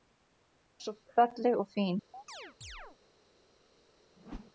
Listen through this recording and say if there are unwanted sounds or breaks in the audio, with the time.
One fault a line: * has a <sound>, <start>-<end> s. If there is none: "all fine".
* has a chirp, 2.1-3.0 s
* has a whoosh, 4.2-4.5 s